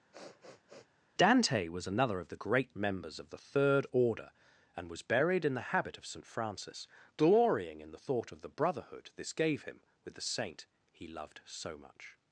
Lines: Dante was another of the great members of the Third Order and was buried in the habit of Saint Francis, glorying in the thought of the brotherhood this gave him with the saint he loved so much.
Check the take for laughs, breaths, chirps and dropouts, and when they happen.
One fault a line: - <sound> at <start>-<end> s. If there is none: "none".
- sniff at 0.1-0.9 s